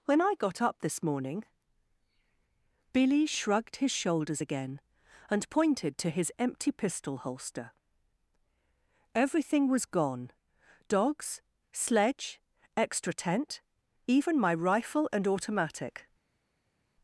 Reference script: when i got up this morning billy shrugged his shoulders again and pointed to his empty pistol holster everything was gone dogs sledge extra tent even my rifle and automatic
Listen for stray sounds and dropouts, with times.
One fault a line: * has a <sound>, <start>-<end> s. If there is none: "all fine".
all fine